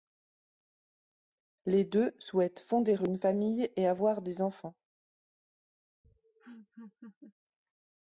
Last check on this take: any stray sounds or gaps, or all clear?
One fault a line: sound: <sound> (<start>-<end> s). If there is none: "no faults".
sound: laugh (6.0-7.3 s)